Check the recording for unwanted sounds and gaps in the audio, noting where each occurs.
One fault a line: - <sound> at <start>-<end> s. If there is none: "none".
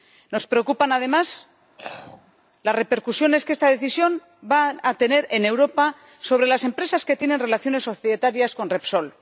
- throat clearing at 1.8-2.3 s